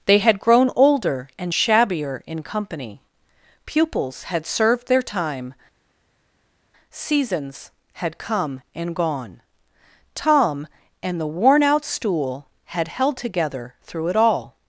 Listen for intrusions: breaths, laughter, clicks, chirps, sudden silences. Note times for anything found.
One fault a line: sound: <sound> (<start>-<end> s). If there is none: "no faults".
no faults